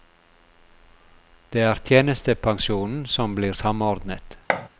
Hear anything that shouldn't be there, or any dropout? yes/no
yes